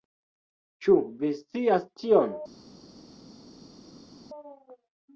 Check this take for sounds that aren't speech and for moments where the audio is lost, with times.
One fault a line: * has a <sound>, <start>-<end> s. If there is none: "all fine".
all fine